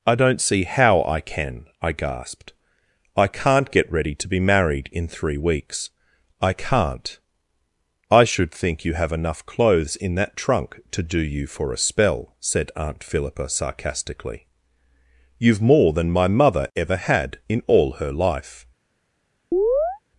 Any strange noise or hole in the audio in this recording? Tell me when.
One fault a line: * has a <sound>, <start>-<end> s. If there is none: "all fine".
* has a chirp, 19.5-20.0 s